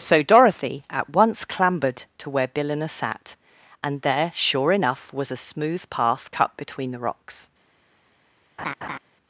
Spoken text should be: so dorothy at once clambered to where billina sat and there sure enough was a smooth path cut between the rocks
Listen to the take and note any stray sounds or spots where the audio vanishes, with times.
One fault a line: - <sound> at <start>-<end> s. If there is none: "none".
- laugh at 8.6-9.0 s